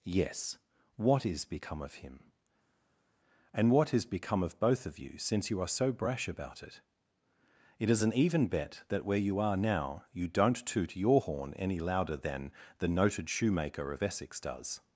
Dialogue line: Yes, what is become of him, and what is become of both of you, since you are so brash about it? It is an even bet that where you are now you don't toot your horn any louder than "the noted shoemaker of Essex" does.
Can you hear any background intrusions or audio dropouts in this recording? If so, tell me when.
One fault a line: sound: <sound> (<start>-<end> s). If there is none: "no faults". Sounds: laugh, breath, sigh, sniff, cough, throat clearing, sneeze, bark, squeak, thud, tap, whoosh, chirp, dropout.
no faults